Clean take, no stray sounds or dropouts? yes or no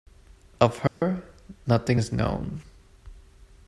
no